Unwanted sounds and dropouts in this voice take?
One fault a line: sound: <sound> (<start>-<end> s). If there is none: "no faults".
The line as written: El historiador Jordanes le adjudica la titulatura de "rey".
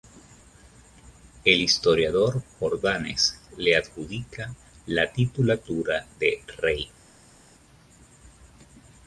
no faults